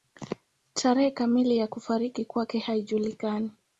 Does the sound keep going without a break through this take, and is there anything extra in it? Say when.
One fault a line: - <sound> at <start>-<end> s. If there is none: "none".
none